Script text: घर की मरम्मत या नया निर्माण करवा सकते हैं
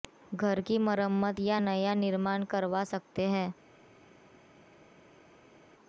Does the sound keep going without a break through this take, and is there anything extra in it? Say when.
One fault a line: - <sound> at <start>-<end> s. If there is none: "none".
none